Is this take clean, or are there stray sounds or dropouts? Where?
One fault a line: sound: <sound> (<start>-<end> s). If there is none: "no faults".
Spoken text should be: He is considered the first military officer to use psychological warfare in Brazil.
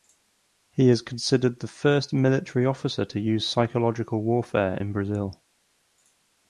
no faults